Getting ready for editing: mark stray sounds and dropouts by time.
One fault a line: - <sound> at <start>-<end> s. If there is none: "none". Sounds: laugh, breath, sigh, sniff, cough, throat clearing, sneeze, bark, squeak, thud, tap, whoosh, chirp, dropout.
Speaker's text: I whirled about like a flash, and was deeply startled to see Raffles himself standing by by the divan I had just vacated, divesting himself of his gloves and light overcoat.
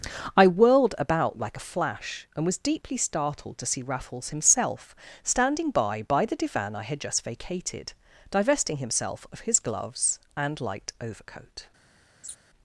- laugh at 12.2-12.4 s